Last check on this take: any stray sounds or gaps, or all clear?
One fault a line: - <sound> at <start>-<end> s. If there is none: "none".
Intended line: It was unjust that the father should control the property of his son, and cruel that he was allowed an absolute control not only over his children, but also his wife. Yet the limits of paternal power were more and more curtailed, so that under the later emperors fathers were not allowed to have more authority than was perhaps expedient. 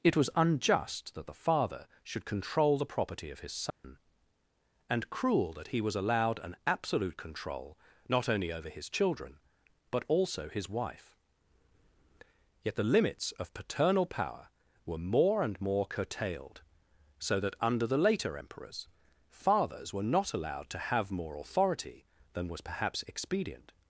- dropout at 3.7-3.8 s